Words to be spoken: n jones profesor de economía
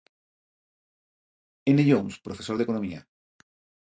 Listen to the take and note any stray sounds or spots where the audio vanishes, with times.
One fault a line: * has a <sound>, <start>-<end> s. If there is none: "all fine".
all fine